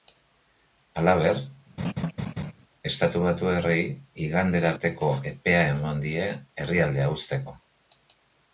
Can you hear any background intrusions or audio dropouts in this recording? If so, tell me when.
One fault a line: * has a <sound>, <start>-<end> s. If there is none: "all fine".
* has a laugh, 1.8-2.5 s